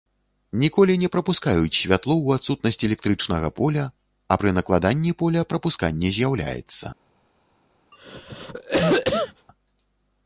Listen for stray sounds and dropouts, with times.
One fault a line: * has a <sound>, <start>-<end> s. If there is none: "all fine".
* has a cough, 7.9-9.5 s